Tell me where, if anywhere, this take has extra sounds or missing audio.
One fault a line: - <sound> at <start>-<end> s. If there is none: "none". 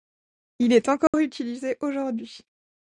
- dropout at 1.1-1.1 s